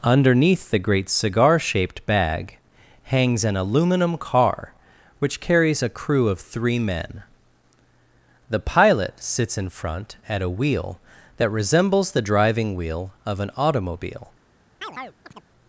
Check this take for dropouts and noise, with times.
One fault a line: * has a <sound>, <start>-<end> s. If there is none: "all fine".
* has a chirp, 14.8-15.5 s